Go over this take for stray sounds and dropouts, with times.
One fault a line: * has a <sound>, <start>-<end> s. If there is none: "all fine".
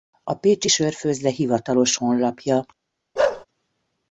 * has a bark, 3.2-3.5 s